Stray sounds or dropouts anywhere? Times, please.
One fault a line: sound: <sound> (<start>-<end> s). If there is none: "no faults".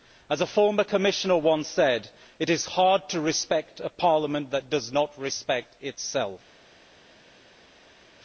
no faults